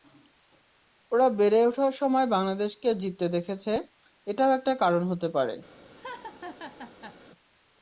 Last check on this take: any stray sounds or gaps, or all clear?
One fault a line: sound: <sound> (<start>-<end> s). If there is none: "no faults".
sound: laugh (5.9-7.2 s)